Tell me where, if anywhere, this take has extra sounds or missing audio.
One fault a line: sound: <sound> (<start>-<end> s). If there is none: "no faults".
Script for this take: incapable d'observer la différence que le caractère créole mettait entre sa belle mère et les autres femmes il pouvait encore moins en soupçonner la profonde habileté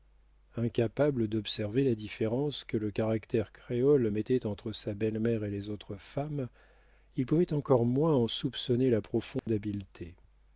sound: dropout (9.4-9.5 s)